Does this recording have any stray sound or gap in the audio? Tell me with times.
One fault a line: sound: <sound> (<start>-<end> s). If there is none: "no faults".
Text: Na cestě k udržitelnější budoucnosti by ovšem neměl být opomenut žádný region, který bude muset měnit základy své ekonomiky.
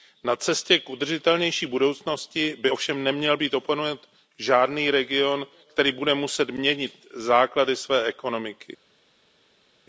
no faults